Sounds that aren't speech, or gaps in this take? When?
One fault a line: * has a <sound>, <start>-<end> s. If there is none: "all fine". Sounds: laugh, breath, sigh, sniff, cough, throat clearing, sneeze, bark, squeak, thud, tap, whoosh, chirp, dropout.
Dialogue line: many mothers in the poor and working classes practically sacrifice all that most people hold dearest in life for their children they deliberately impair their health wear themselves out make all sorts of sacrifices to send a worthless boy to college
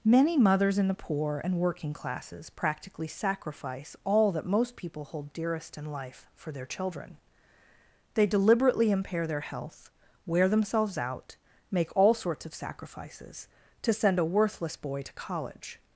all fine